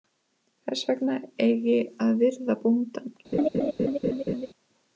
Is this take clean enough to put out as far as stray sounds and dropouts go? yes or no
no